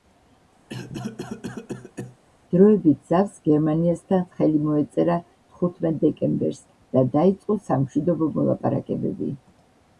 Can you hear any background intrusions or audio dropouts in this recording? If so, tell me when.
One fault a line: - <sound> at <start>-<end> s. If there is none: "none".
- cough at 0.7-2.2 s